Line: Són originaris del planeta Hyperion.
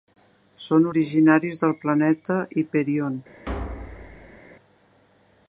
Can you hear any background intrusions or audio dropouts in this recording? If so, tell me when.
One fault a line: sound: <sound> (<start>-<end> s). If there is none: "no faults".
sound: thud (3.5-4.4 s)